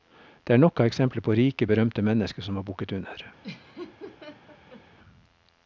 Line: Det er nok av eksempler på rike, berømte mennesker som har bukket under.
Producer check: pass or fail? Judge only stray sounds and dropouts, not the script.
fail